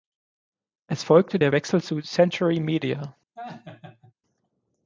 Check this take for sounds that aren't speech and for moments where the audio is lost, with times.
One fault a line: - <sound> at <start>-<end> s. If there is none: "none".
- laugh at 3.4-4.1 s